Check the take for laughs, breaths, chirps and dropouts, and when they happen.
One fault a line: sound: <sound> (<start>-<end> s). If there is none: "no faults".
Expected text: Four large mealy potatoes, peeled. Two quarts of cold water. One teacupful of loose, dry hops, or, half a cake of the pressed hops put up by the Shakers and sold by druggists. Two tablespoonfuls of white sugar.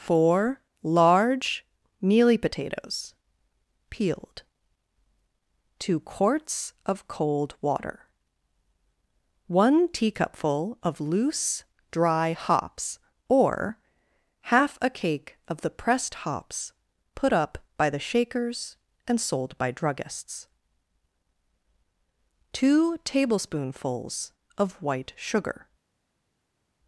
no faults